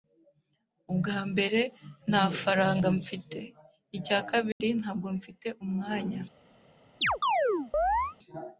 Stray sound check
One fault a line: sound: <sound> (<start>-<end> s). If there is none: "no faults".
sound: dropout (4.5-4.6 s)
sound: chirp (7.0-8.2 s)